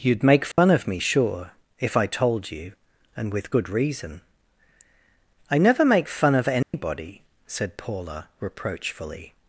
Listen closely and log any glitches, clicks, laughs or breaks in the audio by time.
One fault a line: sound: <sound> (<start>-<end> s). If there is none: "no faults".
sound: dropout (0.5-0.6 s)
sound: dropout (6.6-6.7 s)